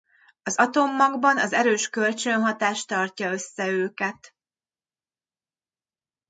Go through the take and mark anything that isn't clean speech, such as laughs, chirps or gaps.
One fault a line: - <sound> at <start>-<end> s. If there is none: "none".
none